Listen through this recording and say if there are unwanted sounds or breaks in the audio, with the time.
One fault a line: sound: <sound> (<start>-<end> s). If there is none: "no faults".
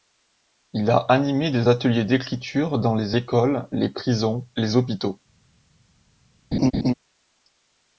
sound: laugh (6.5-6.9 s)